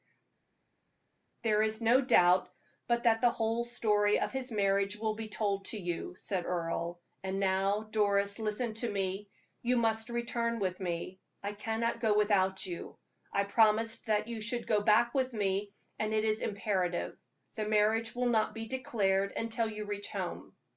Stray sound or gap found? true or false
false